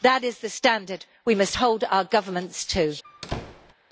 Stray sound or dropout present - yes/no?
yes